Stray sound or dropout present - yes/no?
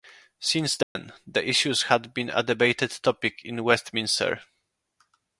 yes